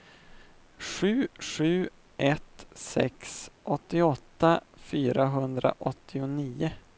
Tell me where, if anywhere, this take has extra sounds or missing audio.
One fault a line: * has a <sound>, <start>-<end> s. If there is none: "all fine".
all fine